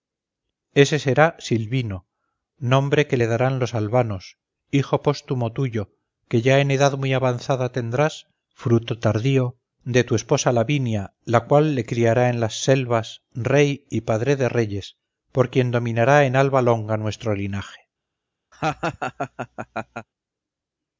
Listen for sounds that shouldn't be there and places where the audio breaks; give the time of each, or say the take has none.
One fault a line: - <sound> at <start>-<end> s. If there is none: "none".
- laugh at 18.5-20.1 s